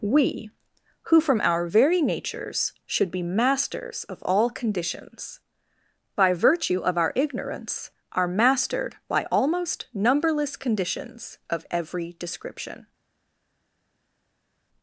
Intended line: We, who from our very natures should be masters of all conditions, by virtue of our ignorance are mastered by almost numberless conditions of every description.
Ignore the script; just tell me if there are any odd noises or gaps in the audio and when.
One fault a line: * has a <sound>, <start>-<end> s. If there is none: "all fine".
all fine